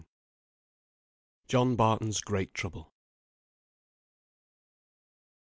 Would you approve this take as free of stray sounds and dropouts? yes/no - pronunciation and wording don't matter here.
yes